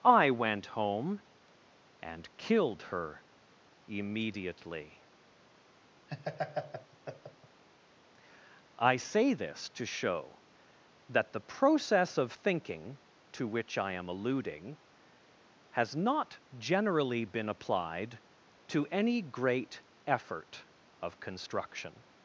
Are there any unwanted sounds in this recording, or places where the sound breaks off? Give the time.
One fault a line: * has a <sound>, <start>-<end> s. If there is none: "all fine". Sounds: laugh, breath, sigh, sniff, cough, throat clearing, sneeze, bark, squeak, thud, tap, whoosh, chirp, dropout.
* has a laugh, 6.1-7.6 s